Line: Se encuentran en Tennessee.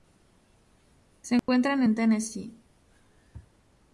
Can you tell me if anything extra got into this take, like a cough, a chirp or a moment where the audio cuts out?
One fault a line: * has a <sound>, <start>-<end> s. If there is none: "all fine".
* has a dropout, 1.4-1.5 s